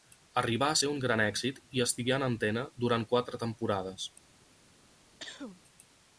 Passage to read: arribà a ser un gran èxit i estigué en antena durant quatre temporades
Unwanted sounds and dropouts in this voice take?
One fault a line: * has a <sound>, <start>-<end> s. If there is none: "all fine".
* has a cough, 5.2-5.6 s